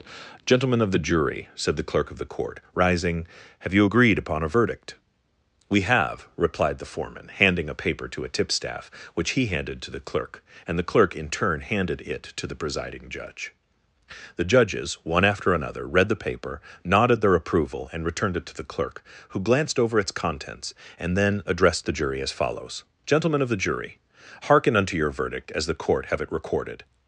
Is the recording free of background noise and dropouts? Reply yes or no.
yes